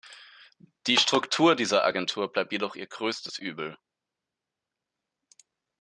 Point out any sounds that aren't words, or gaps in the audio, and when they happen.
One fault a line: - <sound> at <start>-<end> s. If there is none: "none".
none